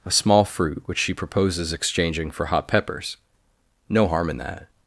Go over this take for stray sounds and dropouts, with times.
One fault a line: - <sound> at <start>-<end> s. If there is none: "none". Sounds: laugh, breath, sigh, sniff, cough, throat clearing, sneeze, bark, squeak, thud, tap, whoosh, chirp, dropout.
none